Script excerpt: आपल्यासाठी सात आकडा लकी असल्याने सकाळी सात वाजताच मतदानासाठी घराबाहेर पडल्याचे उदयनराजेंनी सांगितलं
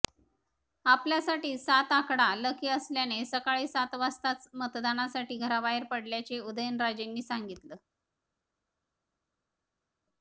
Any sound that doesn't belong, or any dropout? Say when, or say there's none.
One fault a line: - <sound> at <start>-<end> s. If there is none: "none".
none